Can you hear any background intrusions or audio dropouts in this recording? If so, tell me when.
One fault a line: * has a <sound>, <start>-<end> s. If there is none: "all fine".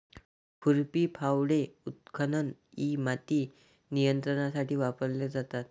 all fine